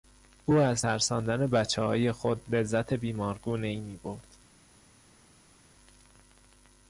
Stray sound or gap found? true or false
false